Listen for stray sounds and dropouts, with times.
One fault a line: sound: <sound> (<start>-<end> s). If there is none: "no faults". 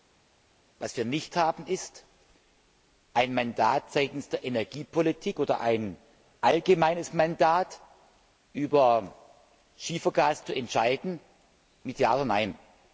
no faults